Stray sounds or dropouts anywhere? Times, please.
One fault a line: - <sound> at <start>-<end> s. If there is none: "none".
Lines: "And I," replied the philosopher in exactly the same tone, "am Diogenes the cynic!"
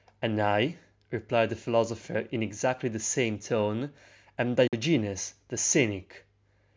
- dropout at 4.7-4.7 s